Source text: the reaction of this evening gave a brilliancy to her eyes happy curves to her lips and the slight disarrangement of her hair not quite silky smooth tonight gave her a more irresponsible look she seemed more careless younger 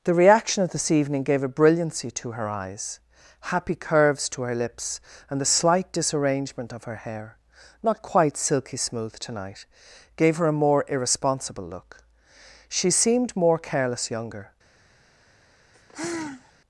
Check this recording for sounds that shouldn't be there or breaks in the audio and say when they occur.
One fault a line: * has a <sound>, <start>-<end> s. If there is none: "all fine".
* has a sigh, 15.7-16.5 s